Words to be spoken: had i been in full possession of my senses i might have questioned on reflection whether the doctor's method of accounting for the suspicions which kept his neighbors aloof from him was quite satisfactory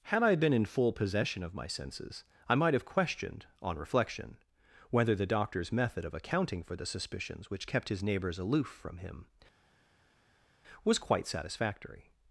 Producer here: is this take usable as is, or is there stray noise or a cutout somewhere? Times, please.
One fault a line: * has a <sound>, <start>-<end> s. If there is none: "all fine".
all fine